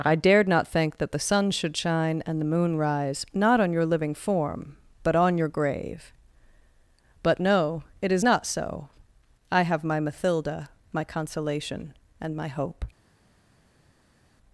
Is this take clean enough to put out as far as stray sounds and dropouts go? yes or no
yes